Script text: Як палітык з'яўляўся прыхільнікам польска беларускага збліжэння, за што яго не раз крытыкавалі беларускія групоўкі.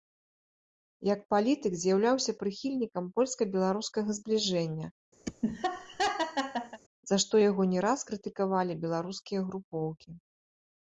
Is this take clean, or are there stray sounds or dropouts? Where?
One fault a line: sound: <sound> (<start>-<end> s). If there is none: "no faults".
sound: laugh (5.2-6.8 s)